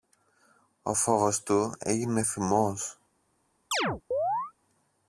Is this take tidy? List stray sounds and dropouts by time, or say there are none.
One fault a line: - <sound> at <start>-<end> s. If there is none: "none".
- chirp at 3.7-4.5 s